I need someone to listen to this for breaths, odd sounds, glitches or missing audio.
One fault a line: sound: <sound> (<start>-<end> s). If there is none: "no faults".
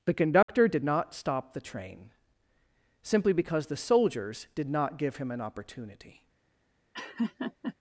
sound: dropout (0.4-0.5 s)
sound: laugh (6.9-7.7 s)